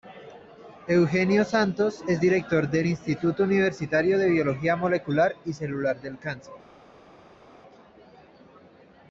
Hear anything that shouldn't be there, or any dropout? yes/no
no